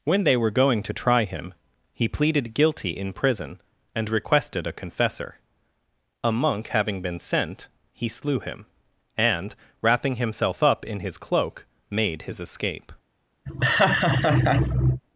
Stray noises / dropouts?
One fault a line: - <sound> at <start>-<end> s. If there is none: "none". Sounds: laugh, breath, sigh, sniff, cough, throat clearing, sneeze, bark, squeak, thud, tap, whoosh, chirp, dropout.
- laugh at 13.5-15.0 s